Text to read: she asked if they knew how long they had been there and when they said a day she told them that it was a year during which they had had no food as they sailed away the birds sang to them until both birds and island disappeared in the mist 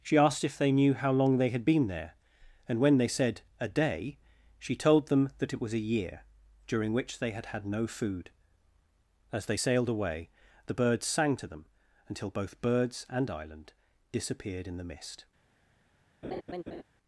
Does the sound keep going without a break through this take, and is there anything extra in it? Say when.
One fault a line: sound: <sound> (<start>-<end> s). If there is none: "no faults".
sound: laugh (16.2-16.8 s)